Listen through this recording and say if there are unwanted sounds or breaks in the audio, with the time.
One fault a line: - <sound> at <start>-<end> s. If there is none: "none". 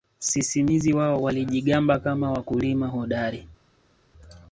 none